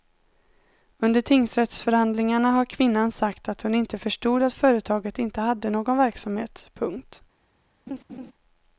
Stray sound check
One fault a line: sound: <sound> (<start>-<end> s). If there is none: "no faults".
sound: laugh (7.9-8.3 s)